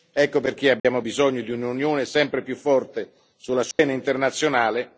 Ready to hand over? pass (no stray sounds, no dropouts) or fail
fail